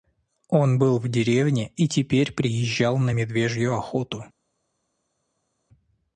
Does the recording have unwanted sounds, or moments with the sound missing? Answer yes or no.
no